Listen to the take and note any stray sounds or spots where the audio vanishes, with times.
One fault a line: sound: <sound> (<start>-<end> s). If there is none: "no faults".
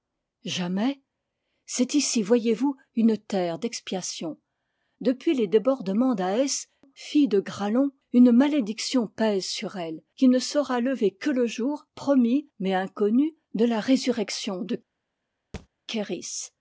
sound: thud (15.5-15.7 s)